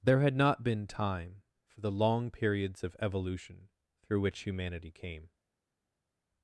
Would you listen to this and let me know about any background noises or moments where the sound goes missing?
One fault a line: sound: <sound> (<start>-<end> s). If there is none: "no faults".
no faults